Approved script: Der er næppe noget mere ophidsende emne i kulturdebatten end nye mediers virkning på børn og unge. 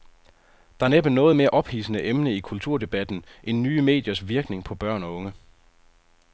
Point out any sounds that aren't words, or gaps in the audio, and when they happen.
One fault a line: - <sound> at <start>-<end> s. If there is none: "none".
none